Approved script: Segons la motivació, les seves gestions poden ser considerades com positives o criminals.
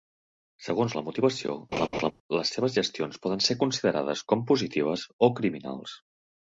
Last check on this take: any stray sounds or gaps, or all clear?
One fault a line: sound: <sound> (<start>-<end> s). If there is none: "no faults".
sound: laugh (1.7-2.1 s)